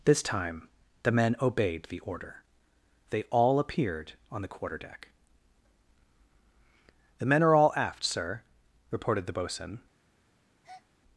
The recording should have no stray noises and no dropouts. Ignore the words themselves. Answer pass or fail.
fail